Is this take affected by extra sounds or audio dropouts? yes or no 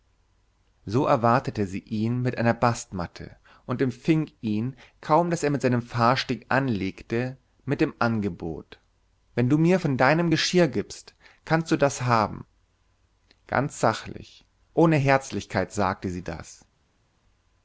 no